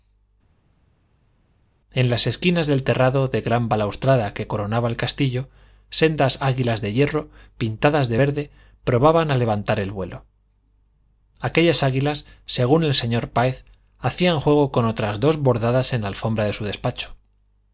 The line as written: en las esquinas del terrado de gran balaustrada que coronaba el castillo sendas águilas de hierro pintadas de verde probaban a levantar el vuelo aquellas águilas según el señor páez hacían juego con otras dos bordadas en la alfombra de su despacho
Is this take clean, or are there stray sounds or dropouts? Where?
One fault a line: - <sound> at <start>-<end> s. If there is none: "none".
none